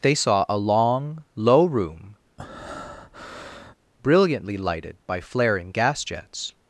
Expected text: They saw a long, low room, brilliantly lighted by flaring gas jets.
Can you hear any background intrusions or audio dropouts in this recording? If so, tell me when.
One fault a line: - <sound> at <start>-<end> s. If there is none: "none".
- breath at 2.4-3.8 s